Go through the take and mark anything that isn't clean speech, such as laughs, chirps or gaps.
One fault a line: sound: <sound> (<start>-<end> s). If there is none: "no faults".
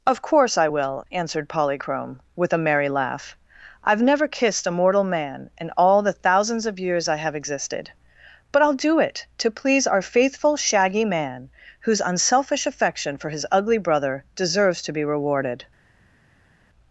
no faults